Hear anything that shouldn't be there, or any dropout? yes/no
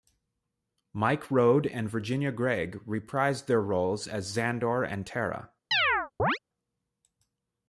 yes